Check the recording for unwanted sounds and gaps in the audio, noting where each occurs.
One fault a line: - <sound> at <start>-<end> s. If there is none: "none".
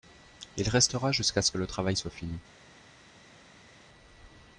none